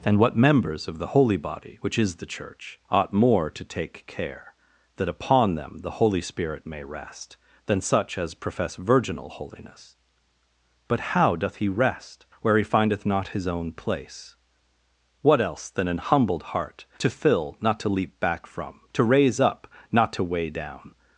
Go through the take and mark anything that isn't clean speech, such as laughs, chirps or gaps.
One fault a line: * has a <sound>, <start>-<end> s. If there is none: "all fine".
all fine